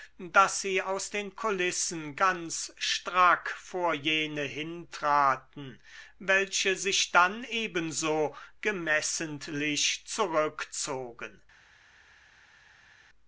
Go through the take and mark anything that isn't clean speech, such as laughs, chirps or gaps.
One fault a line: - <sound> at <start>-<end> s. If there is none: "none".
none